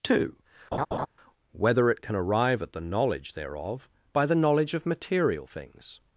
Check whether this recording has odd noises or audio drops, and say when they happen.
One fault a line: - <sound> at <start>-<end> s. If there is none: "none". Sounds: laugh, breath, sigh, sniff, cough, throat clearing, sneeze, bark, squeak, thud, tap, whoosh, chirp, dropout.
- laugh at 0.7-1.1 s